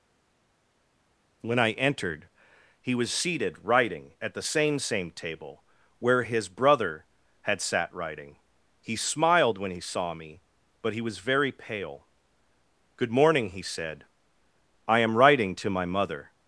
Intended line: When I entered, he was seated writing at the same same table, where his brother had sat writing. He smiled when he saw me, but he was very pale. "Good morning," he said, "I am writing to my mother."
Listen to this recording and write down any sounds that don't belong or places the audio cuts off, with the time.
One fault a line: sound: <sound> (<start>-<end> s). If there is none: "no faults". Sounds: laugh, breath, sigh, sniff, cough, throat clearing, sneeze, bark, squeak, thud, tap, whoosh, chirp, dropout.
no faults